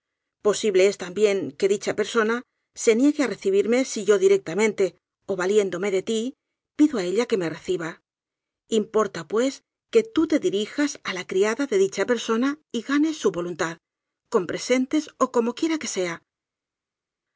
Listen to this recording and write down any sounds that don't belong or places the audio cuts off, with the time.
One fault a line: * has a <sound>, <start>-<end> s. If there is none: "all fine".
all fine